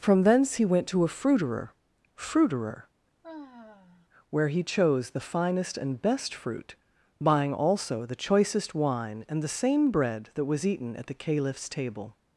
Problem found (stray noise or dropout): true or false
true